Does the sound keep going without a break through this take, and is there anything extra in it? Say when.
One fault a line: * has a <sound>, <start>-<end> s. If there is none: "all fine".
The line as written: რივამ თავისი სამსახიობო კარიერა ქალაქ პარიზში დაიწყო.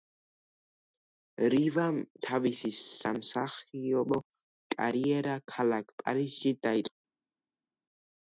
all fine